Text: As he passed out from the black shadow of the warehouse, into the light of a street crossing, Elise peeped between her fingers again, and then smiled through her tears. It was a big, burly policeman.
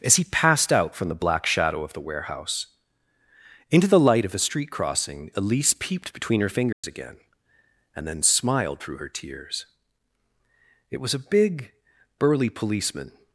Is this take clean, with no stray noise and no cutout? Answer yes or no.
no